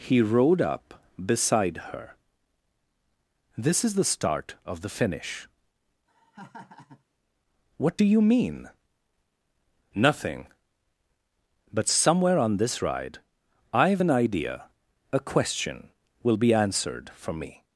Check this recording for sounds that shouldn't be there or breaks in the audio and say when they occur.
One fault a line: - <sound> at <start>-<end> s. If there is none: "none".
- laugh at 6.1-7.0 s